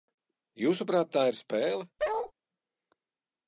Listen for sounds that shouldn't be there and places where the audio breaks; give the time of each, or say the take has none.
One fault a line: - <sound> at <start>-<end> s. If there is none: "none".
- bark at 2.0-2.3 s